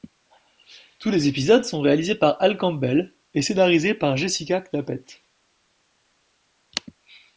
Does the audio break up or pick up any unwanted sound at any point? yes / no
no